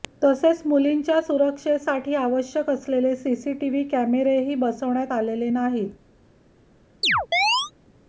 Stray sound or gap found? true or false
true